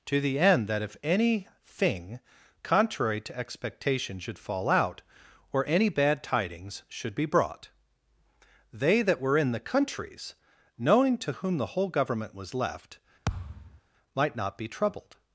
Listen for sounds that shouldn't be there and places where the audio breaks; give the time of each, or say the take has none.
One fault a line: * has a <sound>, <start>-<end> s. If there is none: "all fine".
* has a thud, 13.3-13.8 s